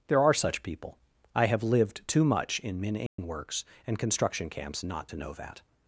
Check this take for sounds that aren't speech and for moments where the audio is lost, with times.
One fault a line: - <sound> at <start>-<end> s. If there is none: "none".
- dropout at 3.1-3.2 s